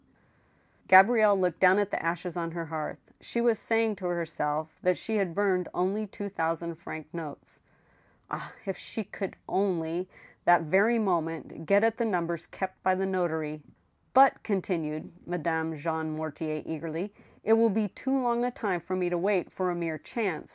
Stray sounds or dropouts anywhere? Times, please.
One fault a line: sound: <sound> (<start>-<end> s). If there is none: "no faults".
no faults